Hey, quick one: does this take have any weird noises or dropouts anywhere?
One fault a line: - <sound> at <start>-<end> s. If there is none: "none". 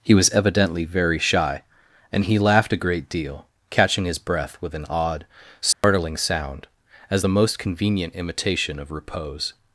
- dropout at 5.7-5.8 s